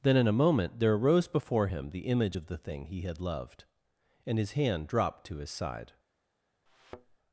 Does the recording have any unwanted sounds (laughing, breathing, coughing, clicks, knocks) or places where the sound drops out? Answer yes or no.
yes